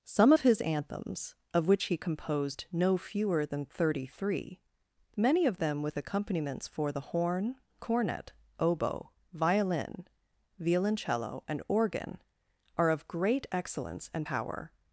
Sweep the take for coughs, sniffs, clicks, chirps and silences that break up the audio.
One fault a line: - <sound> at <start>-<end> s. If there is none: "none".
none